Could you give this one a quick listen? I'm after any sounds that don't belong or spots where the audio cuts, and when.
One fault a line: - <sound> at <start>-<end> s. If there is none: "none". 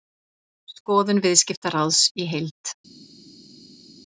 none